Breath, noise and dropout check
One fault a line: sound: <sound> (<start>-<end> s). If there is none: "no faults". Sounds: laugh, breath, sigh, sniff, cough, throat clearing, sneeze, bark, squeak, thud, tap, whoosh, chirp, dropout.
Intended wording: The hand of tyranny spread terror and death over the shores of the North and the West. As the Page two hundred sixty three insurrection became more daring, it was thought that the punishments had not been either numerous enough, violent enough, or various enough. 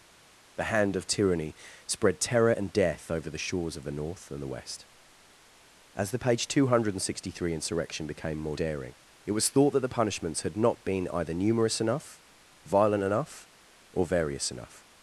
no faults